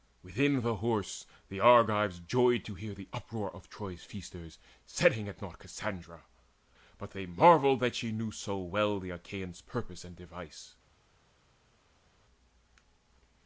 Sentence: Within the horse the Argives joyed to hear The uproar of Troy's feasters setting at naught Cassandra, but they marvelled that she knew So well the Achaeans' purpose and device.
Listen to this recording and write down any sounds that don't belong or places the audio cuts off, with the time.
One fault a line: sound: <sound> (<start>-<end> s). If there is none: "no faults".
no faults